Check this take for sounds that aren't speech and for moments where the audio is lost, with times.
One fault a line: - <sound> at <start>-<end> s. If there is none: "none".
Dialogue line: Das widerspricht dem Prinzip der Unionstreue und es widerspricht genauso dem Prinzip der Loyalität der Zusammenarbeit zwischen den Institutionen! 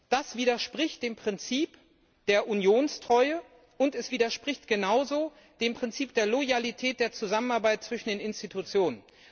none